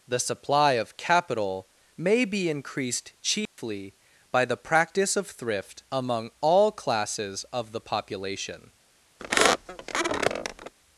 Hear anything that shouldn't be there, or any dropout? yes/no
yes